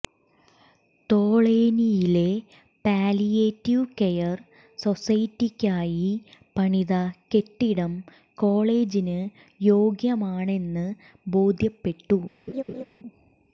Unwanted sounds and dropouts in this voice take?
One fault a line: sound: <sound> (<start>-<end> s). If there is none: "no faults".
sound: laugh (12.5-12.8 s)